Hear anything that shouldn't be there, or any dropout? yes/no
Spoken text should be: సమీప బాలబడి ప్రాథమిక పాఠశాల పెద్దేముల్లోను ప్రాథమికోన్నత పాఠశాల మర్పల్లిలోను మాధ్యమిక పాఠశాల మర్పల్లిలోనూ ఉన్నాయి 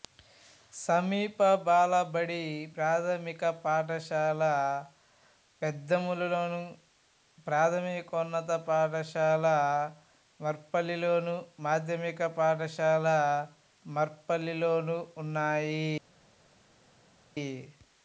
no